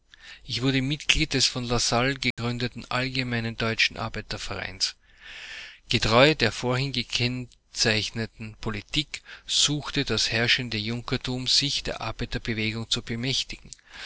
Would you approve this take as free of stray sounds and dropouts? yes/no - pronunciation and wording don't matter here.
no